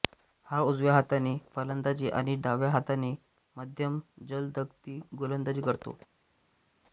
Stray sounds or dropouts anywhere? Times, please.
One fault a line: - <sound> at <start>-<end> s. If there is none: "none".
none